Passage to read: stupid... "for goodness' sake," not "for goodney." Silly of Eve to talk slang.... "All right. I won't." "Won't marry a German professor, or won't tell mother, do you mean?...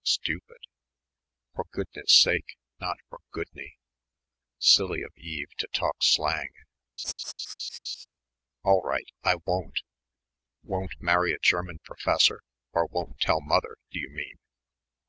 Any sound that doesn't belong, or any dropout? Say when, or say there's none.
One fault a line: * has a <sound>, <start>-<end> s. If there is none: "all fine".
* has a laugh, 7.0-8.1 s